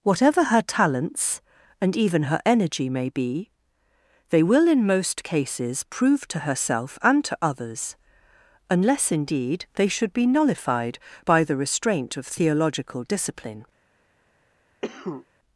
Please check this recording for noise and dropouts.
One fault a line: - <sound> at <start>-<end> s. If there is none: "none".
- cough at 14.8-15.3 s